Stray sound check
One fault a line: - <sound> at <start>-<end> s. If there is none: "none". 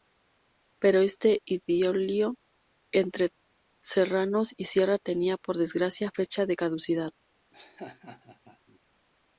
- laugh at 7.5-8.8 s